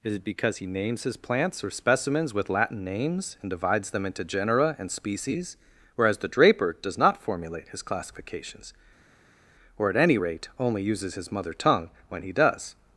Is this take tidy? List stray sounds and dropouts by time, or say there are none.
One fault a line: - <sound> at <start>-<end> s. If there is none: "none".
none